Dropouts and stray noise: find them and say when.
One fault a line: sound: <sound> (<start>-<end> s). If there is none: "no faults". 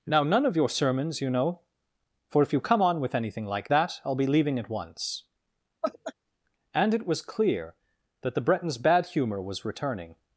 sound: laugh (5.8-6.1 s)